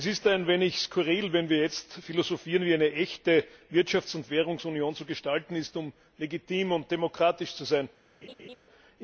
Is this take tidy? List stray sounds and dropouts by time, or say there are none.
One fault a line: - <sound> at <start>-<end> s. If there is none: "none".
- laugh at 8.2-8.6 s